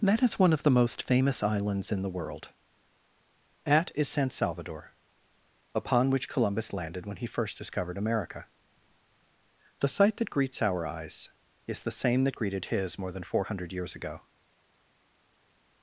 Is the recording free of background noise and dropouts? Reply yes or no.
yes